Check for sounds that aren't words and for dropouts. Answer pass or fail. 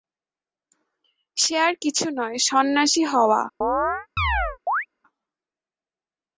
fail